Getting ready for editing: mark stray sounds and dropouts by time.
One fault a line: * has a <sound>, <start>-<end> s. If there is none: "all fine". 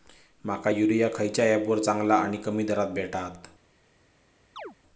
* has a chirp, 4.6-4.7 s